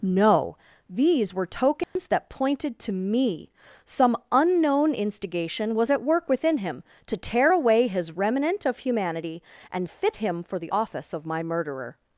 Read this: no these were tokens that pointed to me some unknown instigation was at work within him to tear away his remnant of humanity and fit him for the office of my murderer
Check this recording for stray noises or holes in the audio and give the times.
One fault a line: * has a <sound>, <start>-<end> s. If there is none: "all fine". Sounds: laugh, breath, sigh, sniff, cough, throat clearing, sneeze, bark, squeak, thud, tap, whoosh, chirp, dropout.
* has a dropout, 1.8-2.0 s